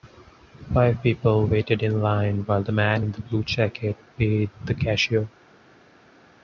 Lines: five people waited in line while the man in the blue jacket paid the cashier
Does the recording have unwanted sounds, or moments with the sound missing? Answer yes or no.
no